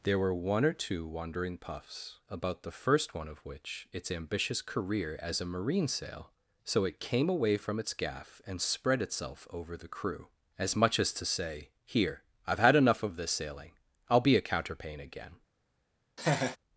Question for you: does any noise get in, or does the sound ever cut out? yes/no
yes